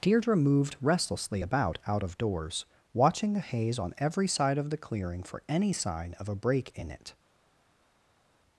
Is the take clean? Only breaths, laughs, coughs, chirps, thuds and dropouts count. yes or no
yes